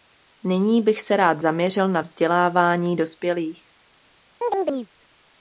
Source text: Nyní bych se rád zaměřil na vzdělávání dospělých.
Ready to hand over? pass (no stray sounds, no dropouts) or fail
fail